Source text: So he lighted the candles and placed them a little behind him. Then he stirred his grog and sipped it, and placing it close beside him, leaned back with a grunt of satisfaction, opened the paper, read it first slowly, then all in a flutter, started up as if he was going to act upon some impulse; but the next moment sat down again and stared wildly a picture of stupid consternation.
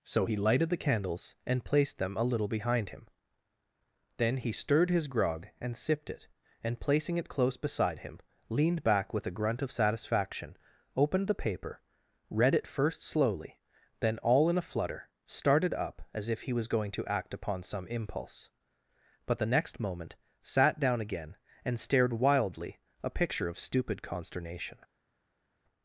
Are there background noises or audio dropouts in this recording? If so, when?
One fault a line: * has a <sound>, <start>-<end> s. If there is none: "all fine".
all fine